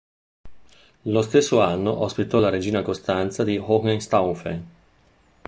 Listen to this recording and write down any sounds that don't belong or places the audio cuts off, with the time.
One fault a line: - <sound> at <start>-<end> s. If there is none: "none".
none